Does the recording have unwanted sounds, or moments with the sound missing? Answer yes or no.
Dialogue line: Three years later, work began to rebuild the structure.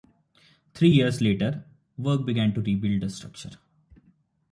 no